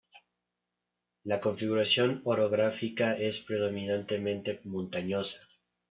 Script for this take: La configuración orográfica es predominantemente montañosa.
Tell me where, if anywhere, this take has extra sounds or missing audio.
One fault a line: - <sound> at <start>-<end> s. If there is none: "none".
none